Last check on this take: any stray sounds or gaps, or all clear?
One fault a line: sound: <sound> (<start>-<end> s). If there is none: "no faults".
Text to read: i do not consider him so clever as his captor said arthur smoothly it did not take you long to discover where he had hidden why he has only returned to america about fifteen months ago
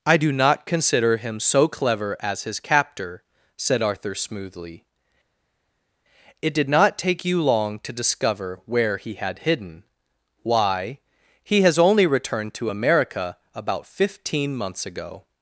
no faults